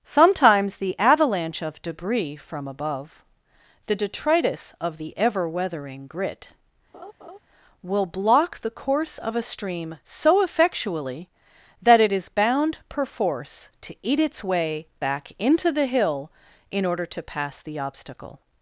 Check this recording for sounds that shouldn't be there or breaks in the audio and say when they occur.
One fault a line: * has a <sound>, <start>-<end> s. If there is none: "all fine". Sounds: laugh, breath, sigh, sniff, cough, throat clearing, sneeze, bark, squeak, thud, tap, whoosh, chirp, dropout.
* has a laugh, 6.9-7.4 s